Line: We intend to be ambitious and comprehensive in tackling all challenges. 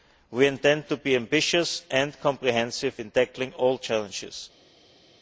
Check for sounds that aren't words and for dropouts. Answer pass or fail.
pass